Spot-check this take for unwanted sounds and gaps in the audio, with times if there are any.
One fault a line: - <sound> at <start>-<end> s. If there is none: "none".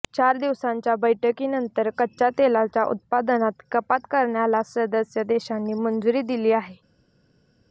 none